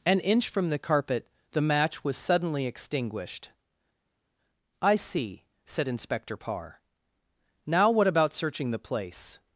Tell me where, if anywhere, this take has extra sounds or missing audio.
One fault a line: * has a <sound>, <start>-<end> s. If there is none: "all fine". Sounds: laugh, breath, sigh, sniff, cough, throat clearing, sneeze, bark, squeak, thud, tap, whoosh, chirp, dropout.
all fine